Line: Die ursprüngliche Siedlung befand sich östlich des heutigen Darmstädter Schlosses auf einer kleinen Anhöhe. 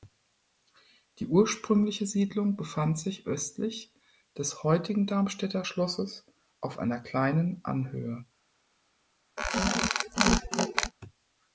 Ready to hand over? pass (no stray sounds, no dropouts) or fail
fail